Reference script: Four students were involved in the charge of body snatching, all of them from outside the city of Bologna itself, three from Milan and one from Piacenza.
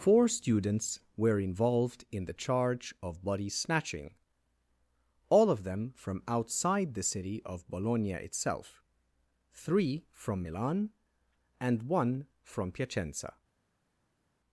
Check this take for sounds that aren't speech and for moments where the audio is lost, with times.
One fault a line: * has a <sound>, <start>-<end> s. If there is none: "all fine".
all fine